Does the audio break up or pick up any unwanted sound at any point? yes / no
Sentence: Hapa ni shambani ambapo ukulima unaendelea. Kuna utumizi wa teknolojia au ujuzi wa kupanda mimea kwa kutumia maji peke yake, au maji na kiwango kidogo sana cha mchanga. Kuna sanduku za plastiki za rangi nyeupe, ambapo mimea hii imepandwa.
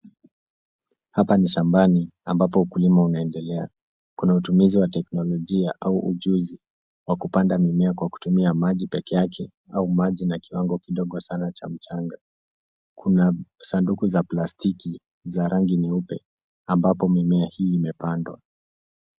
no